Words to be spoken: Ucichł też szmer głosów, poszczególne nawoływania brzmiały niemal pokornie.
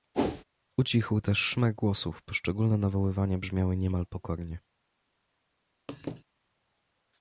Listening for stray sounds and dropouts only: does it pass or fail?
fail